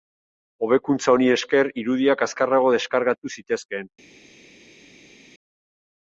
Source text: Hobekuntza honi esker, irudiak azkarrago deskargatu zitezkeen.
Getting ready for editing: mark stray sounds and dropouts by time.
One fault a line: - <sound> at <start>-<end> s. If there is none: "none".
none